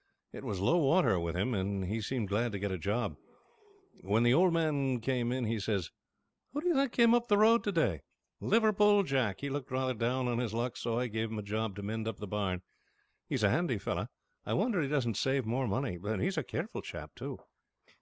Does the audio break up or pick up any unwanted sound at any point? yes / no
no